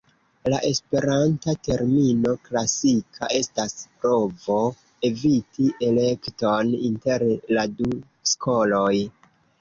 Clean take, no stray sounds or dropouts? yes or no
yes